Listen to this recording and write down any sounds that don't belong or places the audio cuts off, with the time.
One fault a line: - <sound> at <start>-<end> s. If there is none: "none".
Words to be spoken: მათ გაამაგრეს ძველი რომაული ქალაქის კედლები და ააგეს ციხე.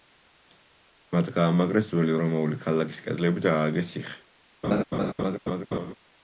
- laugh at 4.6-5.9 s